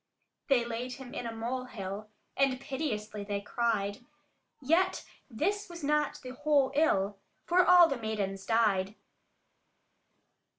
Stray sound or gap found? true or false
false